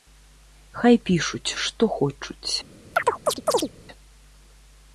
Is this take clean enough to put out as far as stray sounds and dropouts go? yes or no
no